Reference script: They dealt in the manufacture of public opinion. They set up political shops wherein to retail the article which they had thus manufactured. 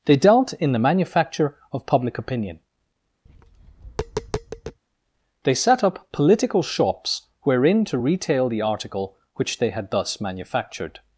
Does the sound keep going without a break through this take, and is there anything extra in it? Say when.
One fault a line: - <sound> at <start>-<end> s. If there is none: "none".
- tap at 3.3-4.8 s